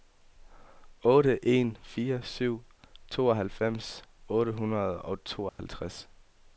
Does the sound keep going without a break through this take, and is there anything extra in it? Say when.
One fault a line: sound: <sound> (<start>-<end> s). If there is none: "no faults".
sound: dropout (5.5-5.6 s)